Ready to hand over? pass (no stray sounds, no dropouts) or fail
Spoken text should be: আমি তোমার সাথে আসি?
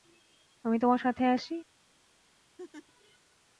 fail